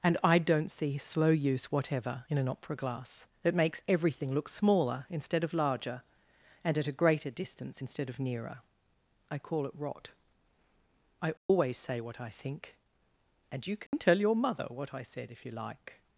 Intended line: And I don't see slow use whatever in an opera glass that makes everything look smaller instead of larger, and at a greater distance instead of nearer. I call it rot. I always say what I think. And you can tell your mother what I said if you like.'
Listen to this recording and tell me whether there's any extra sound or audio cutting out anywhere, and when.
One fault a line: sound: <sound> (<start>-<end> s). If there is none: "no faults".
sound: dropout (11.4-11.5 s)
sound: dropout (13.9-13.9 s)